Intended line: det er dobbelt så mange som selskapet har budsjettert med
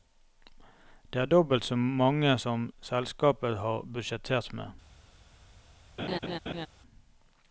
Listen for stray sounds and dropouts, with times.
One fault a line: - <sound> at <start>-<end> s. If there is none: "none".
- laugh at 6.0-6.7 s